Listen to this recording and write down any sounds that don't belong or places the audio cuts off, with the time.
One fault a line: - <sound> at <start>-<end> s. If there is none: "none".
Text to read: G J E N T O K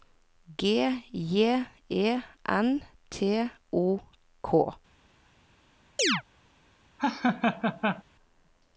- chirp at 6.0-6.2 s
- laugh at 7.0-8.0 s